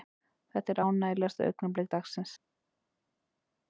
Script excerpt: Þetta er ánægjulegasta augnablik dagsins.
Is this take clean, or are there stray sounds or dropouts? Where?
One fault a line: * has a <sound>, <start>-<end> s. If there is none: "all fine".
all fine